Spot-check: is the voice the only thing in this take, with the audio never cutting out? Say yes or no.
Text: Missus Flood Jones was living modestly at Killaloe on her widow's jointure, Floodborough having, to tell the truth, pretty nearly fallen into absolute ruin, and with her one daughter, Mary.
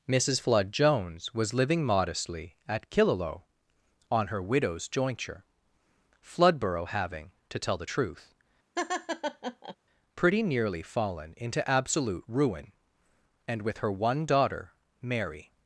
no